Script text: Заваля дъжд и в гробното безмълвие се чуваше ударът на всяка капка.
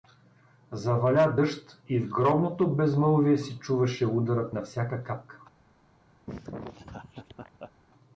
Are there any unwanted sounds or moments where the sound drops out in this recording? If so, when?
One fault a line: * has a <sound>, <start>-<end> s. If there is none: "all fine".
* has a laugh, 6.3-7.7 s